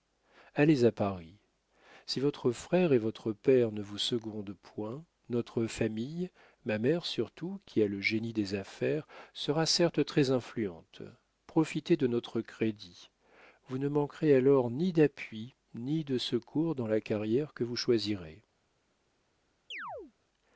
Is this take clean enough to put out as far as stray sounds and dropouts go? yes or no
no